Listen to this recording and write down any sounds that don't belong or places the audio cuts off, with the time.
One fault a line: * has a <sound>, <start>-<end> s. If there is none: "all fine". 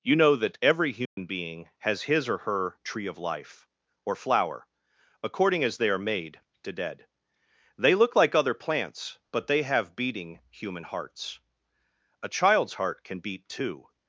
* has a dropout, 1.1-1.2 s